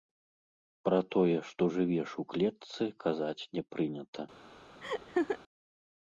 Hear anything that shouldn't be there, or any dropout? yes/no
yes